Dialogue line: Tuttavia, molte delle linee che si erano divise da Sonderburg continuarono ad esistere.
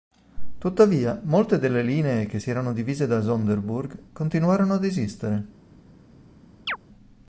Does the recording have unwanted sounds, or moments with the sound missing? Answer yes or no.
yes